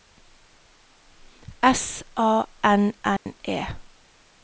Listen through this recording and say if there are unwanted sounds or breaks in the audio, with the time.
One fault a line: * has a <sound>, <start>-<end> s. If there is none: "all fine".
* has a dropout, 3.2-3.3 s